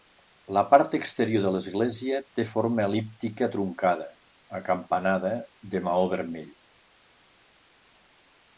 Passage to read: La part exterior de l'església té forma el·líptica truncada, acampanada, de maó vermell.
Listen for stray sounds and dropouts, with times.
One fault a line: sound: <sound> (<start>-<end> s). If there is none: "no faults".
no faults